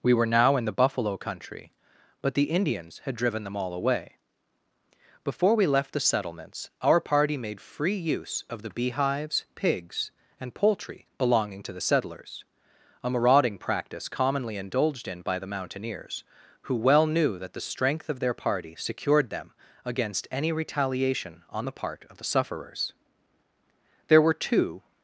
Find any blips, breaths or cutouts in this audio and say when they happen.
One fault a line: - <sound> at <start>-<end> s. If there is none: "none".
none